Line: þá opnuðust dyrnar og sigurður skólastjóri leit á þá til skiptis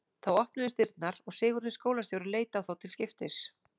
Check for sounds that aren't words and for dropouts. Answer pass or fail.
pass